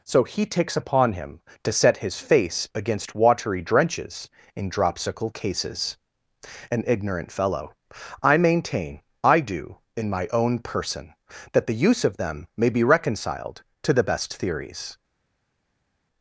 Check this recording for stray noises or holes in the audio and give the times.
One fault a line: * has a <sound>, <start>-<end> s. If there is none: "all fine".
all fine